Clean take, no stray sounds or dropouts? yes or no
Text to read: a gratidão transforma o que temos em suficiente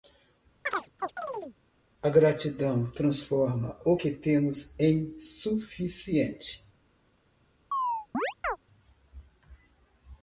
no